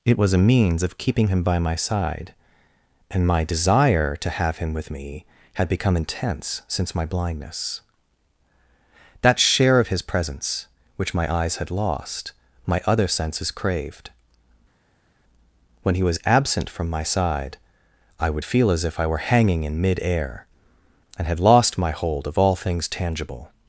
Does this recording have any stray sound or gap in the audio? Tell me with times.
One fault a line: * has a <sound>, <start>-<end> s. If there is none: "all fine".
all fine